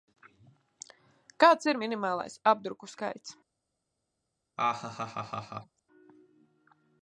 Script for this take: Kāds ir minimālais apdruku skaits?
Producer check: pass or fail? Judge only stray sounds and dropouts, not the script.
fail